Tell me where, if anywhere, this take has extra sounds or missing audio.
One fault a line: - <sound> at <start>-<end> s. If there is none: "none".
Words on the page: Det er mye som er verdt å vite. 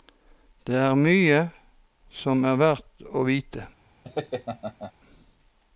- laugh at 4.0-4.9 s